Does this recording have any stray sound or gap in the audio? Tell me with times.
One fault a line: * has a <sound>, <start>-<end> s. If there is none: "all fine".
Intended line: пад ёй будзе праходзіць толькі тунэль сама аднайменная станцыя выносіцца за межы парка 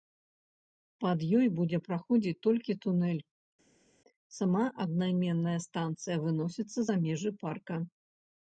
all fine